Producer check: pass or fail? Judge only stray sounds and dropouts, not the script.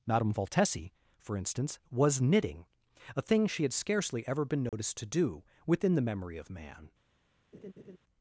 fail